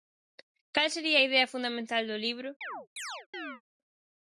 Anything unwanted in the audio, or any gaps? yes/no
yes